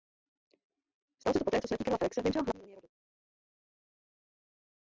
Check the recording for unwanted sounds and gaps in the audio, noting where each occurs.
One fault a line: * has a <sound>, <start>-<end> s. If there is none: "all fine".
all fine